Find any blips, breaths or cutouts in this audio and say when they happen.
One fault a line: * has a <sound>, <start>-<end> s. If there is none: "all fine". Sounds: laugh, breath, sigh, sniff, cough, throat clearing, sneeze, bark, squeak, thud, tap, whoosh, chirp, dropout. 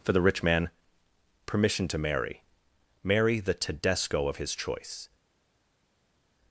all fine